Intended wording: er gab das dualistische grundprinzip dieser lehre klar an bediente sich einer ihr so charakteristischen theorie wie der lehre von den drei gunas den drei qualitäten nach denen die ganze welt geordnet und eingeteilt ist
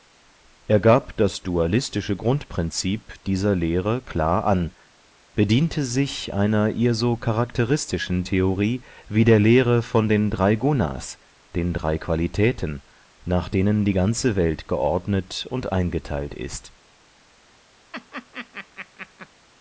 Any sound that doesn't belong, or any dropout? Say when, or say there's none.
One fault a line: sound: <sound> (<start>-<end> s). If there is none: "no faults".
sound: laugh (17.9-19.3 s)